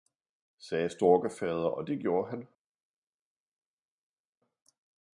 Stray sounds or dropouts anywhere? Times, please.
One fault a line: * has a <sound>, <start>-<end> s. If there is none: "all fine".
all fine